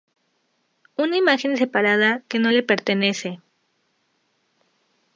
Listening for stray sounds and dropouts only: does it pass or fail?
pass